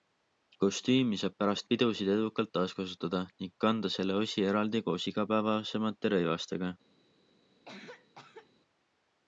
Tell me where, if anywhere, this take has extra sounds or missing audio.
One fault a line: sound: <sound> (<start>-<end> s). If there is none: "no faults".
sound: cough (7.6-8.5 s)